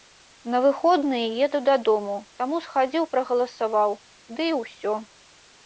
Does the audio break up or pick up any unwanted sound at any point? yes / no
no